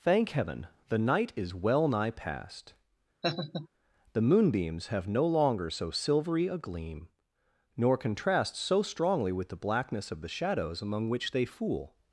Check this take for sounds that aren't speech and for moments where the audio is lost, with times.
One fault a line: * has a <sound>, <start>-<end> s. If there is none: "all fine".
* has a laugh, 3.2-3.7 s